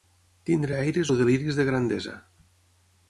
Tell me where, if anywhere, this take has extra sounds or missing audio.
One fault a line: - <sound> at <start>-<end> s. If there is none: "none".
none